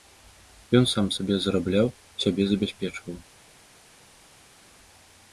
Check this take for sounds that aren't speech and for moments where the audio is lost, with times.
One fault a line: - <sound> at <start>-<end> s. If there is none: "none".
none